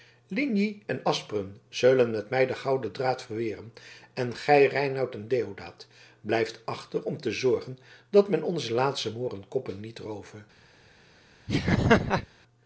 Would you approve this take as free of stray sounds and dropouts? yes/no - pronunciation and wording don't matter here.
no